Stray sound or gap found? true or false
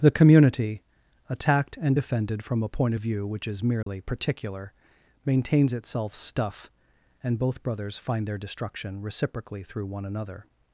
true